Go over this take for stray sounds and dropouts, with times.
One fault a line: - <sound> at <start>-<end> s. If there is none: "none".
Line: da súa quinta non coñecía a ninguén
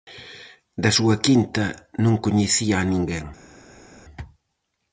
none